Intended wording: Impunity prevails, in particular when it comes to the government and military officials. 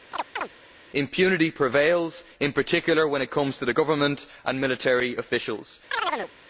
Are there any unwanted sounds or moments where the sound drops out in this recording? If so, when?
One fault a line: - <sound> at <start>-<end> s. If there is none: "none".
- chirp at 0.1-0.5 s
- chirp at 5.9-6.3 s